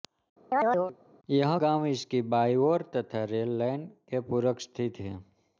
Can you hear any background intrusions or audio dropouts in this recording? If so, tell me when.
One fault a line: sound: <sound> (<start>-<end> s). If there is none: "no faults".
sound: chirp (0.5-1.0 s)